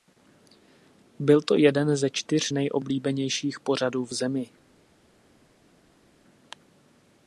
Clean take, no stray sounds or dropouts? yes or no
yes